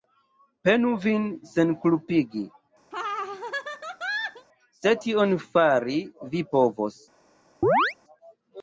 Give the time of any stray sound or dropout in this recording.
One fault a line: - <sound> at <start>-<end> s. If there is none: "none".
- laugh at 2.9-4.5 s
- chirp at 7.6-7.9 s